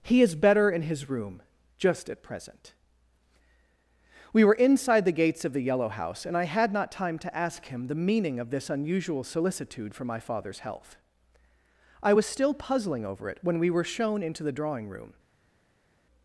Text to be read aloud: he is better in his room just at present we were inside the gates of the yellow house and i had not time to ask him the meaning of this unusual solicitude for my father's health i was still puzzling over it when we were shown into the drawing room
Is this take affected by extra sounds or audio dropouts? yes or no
no